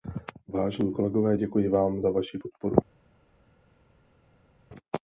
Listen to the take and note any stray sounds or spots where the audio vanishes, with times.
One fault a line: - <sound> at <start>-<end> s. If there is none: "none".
none